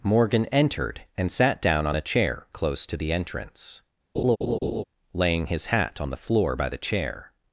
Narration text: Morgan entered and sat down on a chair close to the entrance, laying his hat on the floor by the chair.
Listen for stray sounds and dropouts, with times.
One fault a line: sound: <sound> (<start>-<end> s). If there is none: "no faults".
sound: laugh (4.1-4.8 s)